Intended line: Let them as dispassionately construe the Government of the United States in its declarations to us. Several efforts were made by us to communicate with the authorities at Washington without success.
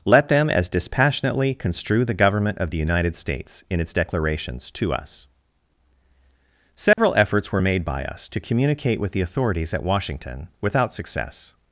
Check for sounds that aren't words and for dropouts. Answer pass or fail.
fail